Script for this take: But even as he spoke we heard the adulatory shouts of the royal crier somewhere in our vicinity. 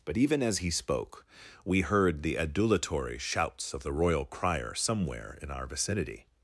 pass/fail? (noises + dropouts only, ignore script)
pass